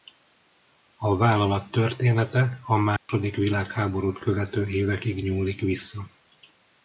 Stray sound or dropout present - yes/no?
yes